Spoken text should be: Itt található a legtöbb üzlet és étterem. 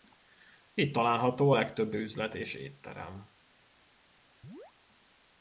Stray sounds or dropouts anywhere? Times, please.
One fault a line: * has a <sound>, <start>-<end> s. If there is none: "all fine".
* has a chirp, 4.4-4.7 s